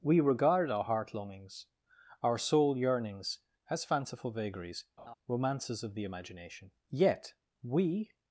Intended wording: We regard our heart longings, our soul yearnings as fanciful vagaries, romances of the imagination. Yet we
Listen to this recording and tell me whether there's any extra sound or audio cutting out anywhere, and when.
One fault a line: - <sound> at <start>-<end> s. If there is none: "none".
- laugh at 5.0-5.1 s